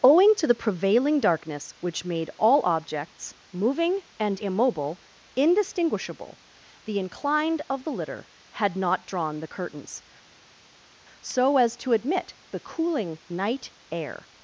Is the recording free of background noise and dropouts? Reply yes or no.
yes